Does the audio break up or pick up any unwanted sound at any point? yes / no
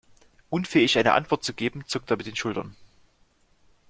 no